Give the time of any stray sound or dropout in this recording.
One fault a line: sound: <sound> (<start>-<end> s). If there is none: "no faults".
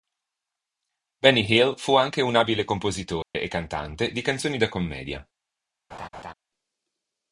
sound: dropout (3.2-3.3 s)
sound: laugh (5.9-6.3 s)